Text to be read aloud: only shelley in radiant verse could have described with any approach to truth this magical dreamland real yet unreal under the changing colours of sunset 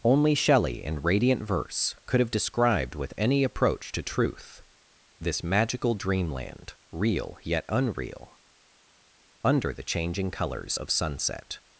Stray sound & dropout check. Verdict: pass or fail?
pass